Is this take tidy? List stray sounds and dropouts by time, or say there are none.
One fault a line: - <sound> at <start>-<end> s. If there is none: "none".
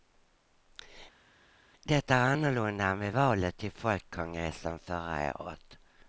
none